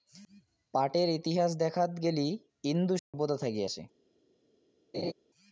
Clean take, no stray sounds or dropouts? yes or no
no